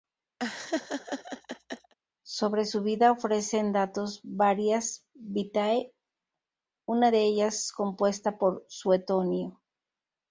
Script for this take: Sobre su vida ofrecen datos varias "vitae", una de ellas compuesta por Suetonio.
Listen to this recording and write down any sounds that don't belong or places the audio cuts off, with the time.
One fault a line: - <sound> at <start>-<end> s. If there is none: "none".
- laugh at 0.4-1.9 s